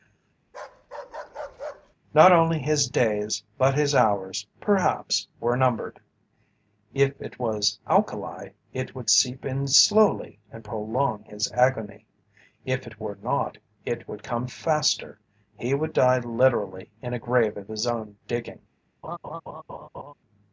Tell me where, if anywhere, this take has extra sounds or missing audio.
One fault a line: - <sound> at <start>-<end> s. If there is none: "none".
- bark at 0.5-2.0 s
- laugh at 19.0-20.1 s